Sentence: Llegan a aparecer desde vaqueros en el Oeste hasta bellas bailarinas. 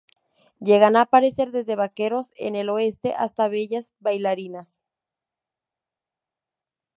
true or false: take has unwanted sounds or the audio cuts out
false